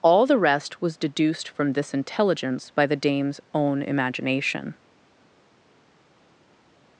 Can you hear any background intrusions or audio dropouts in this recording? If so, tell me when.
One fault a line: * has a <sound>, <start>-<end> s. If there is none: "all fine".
all fine